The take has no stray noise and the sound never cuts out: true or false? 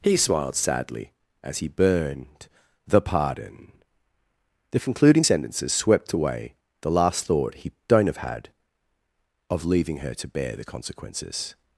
true